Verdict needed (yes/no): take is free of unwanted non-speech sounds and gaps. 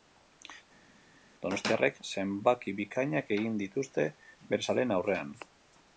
yes